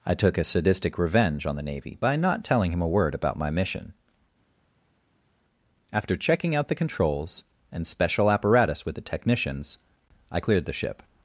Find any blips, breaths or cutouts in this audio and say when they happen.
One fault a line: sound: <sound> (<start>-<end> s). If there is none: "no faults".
no faults